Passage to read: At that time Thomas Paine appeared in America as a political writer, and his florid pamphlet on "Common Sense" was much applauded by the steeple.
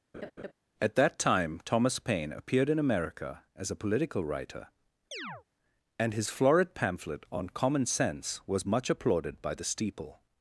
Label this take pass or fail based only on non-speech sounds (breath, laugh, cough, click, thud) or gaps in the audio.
fail